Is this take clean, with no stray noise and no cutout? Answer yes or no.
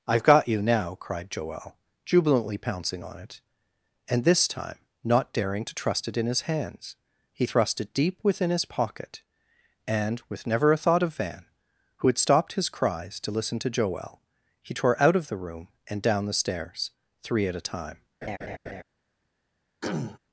no